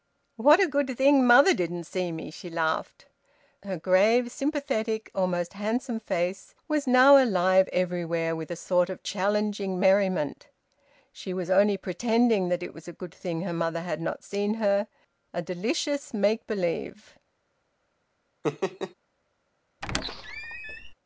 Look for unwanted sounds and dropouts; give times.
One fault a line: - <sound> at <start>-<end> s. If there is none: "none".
- laugh at 18.4-18.9 s
- squeak at 19.8-20.9 s